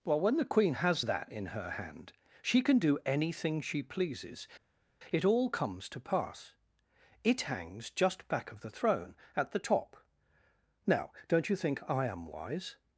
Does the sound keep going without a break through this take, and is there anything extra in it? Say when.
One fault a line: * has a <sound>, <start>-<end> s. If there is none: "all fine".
all fine